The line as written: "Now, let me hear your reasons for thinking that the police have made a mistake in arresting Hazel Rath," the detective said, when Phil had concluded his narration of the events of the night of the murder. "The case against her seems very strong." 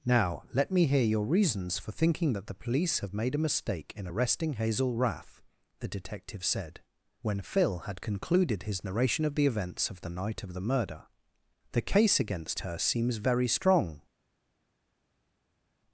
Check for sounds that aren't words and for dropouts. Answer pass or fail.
pass